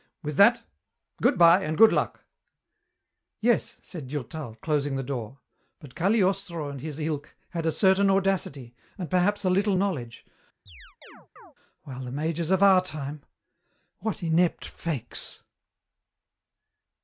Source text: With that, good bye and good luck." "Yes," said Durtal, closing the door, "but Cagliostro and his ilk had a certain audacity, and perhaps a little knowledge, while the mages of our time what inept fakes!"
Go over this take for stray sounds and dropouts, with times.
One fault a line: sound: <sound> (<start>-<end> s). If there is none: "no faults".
sound: chirp (10.7-11.5 s)